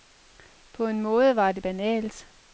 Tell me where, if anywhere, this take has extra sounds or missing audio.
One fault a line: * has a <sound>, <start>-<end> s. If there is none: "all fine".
all fine